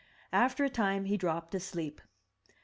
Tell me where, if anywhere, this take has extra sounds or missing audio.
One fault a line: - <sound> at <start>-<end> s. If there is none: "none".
none